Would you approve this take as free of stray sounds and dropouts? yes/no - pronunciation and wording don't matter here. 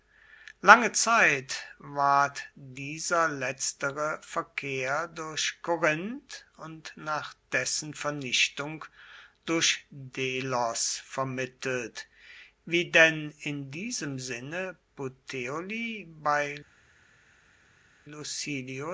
yes